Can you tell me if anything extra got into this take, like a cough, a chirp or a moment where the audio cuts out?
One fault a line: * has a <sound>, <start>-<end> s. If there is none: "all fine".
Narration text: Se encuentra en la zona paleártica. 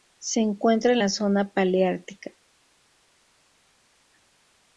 all fine